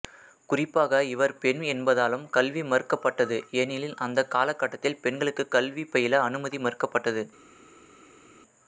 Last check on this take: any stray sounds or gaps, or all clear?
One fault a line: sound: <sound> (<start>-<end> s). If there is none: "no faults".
no faults